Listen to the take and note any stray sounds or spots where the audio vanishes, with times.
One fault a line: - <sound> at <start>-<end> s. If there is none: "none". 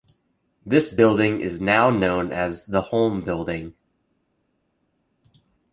none